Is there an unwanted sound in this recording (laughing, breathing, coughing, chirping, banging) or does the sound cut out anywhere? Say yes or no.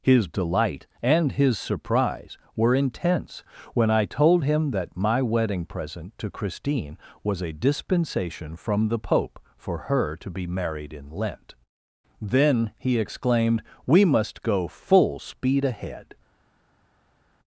no